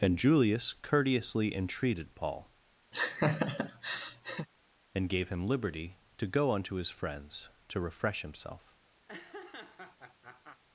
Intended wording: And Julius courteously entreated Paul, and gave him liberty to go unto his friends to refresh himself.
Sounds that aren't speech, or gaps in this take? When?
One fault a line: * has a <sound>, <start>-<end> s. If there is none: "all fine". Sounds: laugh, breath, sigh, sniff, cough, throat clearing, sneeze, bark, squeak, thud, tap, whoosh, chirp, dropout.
* has a laugh, 2.9-4.5 s
* has a laugh, 9.1-10.6 s